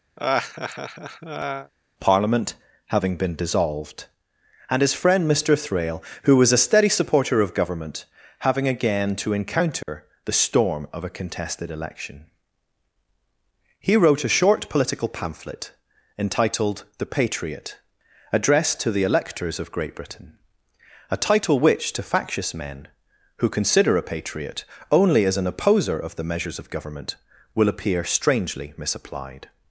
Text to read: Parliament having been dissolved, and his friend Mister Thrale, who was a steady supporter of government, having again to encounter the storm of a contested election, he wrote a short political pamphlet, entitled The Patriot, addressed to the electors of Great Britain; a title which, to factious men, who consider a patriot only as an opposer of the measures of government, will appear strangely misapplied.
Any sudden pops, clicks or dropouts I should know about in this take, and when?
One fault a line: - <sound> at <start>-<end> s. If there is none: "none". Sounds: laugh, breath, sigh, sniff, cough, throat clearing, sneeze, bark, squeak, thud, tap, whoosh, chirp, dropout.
- laugh at 0.2-1.7 s
- dropout at 9.8-9.9 s